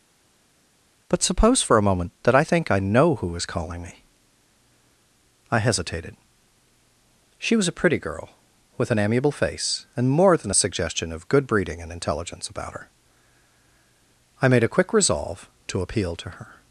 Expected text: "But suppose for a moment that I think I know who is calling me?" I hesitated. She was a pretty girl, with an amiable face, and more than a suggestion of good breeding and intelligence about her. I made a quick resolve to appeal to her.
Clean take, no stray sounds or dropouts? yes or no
yes